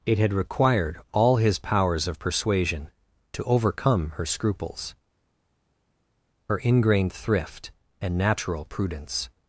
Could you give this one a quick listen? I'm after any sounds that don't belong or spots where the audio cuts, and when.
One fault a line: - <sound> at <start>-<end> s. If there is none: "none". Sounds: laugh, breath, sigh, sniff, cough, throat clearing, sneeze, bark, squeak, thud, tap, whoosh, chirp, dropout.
none